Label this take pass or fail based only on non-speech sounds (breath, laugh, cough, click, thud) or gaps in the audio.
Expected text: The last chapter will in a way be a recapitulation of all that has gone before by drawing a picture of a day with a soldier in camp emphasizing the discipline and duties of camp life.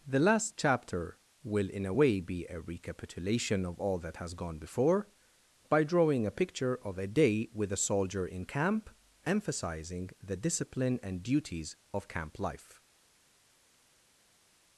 pass